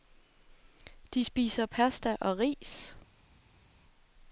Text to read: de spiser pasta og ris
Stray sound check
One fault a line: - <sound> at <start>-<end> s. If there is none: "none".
none